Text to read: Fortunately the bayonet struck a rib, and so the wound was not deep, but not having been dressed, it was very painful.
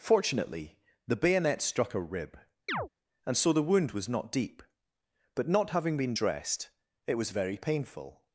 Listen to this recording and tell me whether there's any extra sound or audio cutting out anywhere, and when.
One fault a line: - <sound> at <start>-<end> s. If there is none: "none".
- chirp at 2.7-2.9 s